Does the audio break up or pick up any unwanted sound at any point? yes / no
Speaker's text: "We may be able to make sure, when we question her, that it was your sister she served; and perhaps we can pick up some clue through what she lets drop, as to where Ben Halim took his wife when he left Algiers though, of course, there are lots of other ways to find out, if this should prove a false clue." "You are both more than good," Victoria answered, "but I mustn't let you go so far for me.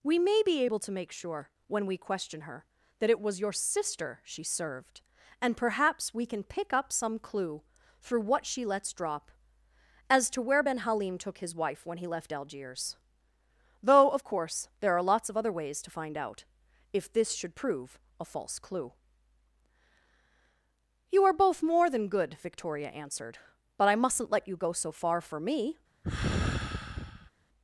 yes